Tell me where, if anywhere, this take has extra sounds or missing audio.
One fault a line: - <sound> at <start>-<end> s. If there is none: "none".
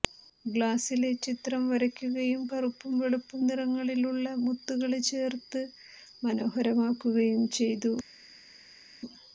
none